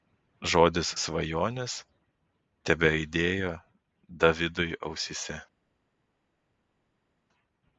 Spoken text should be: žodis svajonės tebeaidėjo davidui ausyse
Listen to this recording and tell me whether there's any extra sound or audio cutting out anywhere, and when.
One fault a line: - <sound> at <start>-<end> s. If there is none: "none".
none